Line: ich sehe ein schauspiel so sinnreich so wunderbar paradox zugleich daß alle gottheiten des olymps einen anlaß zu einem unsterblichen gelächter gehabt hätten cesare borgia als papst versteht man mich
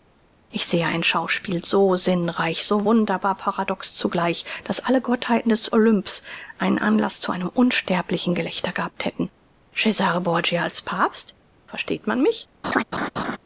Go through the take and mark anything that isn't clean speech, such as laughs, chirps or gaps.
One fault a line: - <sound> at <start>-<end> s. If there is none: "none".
- laugh at 12.6-13.4 s